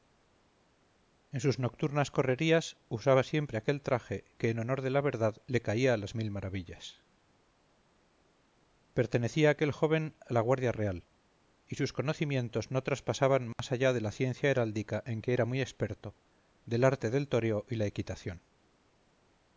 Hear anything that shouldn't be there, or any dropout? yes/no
yes